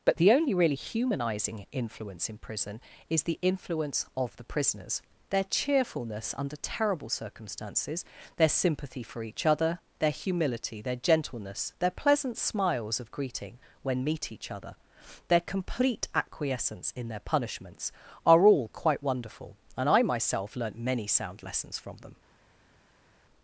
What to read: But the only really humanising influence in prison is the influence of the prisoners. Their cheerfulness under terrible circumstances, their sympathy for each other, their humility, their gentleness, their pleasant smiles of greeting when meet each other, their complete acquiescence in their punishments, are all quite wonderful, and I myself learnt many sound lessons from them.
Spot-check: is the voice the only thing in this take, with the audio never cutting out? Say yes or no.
yes